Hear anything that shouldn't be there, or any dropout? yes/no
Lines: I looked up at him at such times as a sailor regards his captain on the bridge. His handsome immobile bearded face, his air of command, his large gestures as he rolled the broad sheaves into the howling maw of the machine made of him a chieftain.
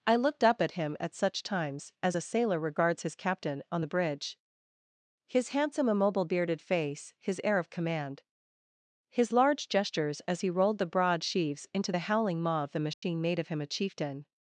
yes